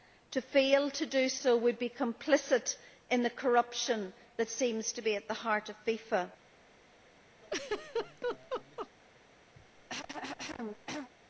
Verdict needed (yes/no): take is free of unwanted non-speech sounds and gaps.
no